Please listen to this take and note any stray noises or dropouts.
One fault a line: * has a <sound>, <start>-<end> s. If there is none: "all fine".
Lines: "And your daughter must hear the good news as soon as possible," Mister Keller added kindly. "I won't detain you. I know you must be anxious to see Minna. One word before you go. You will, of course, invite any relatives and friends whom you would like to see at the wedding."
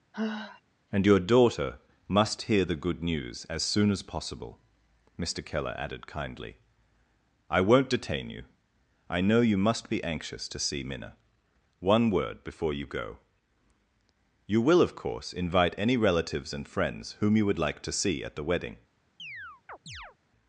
* has a sigh, 0.1-0.6 s
* has a chirp, 19.2-20.2 s